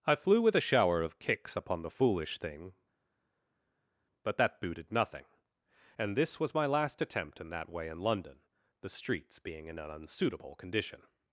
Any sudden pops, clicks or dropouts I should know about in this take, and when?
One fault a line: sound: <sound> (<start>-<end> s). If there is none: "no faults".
no faults